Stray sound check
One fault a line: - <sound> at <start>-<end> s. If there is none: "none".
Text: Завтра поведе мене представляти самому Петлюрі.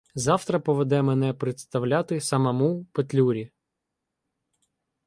none